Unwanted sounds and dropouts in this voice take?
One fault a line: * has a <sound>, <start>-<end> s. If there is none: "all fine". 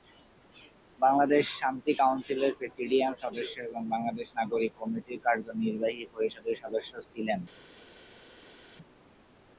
all fine